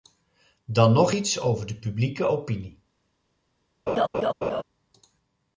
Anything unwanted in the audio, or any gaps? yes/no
yes